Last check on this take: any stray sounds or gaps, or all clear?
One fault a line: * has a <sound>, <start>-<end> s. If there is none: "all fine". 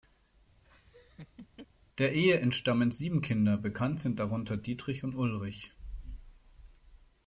* has a laugh, 0.6-1.7 s